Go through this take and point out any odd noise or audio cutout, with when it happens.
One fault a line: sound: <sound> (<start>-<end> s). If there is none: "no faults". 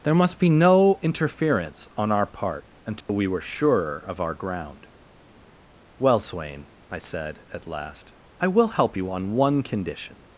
sound: dropout (3.0-3.1 s)